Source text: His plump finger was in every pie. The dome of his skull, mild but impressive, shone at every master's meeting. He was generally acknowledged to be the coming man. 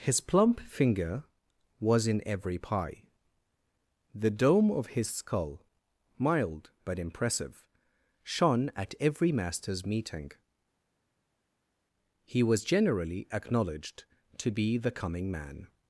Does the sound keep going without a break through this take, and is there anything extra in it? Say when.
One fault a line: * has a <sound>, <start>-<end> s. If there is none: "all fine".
all fine